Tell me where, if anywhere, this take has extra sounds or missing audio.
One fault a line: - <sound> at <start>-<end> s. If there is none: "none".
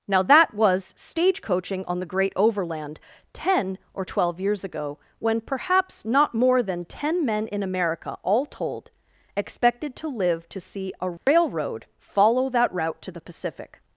- dropout at 11.2-11.3 s